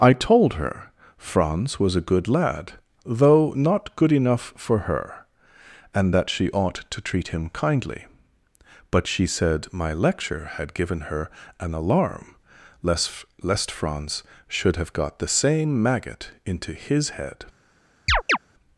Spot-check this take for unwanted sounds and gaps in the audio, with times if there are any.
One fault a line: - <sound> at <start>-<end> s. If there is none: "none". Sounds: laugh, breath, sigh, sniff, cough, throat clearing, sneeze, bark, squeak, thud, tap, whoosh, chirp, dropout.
- chirp at 18.1-18.4 s